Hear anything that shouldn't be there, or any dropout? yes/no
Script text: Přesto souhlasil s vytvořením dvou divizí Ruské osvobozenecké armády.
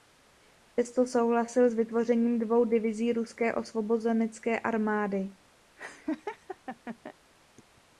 yes